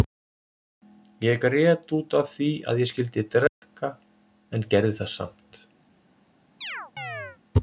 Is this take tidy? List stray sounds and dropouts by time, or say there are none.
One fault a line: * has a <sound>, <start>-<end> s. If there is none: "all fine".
* has a dropout, 3.5-3.6 s
* has a chirp, 6.6-7.4 s